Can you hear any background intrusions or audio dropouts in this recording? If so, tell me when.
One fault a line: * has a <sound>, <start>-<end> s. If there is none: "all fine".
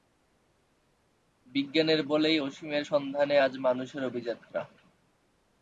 all fine